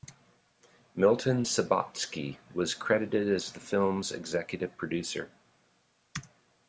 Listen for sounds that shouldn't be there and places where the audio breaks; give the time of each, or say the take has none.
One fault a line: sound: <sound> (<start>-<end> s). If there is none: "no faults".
no faults